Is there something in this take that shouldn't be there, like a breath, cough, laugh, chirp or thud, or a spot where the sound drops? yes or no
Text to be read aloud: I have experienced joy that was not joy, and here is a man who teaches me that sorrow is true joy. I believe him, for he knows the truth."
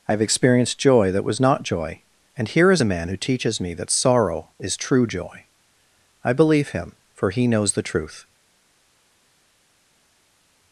no